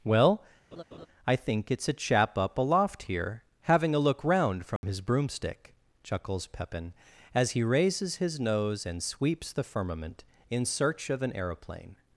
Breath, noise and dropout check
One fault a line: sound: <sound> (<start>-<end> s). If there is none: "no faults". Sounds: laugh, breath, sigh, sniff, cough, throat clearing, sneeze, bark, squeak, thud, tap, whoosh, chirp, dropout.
sound: laugh (0.7-1.1 s)
sound: dropout (4.8-4.8 s)